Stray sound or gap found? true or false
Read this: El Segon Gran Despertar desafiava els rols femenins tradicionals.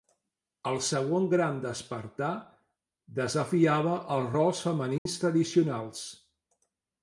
true